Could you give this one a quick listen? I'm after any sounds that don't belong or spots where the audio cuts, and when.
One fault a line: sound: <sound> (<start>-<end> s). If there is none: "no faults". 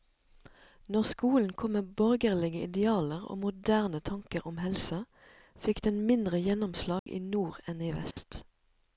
sound: dropout (7.0-7.1 s)
sound: dropout (8.1-8.2 s)